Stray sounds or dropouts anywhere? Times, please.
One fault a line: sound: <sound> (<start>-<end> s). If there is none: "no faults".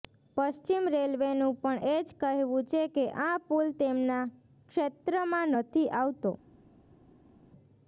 no faults